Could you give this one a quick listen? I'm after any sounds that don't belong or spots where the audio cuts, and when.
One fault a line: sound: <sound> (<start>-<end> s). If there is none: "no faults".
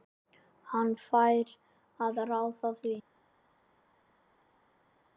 no faults